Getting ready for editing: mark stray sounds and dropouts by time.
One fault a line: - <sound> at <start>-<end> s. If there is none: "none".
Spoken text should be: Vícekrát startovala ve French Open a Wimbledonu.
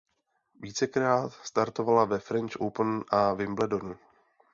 none